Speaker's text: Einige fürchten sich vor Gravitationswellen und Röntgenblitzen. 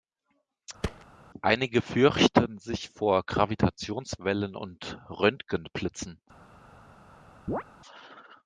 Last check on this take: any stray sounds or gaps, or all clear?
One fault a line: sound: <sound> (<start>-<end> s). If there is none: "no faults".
sound: thud (0.8-1.1 s)
sound: chirp (7.5-7.6 s)